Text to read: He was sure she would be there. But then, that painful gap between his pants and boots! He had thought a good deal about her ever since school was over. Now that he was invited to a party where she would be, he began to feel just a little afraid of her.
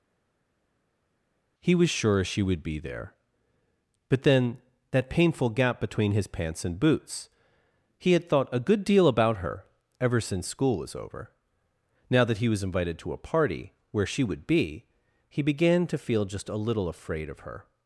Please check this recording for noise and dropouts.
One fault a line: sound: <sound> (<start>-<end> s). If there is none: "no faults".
no faults